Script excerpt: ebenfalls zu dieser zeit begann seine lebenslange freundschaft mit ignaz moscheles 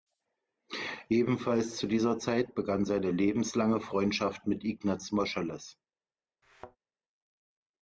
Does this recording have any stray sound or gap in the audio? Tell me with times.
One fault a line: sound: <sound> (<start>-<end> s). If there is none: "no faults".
sound: thud (6.4-6.8 s)